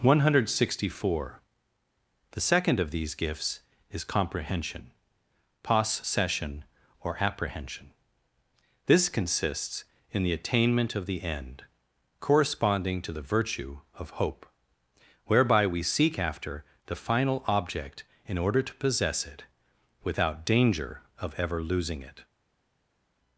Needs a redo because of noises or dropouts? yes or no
no